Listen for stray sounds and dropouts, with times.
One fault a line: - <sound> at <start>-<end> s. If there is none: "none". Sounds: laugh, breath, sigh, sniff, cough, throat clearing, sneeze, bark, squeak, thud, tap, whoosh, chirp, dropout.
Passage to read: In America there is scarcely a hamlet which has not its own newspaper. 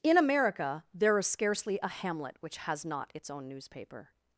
none